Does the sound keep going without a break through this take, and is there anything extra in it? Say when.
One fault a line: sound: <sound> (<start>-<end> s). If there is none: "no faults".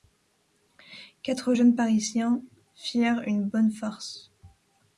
no faults